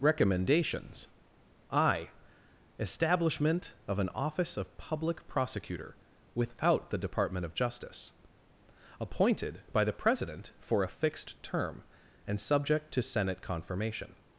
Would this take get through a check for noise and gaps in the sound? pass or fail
pass